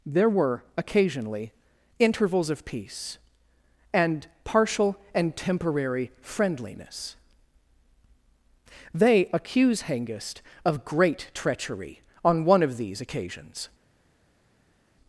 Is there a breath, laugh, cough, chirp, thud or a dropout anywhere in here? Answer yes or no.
no